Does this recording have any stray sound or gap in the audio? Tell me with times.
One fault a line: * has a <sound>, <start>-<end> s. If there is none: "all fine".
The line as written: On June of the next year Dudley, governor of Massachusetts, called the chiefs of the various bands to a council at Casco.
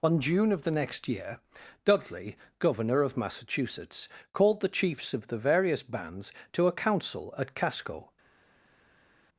all fine